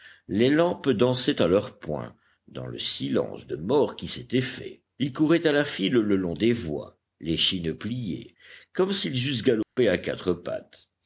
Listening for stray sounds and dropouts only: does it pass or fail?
fail